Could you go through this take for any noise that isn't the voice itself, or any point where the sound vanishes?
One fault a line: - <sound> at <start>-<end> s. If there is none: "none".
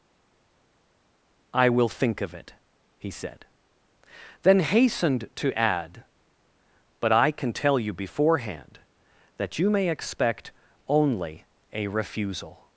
none